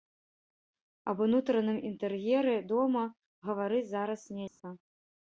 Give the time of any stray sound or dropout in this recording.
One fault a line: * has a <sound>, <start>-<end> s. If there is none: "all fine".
* has a dropout, 4.5-4.6 s